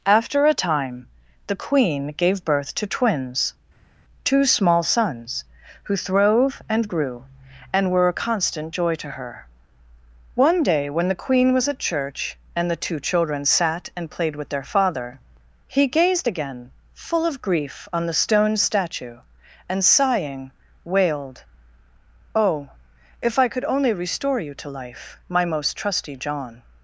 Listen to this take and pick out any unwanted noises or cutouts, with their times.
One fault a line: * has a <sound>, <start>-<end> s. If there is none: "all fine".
all fine